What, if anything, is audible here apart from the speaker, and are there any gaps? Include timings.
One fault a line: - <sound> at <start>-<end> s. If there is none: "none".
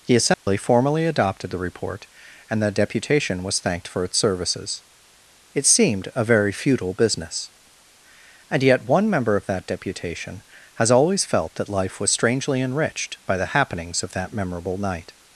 - dropout at 0.3-0.5 s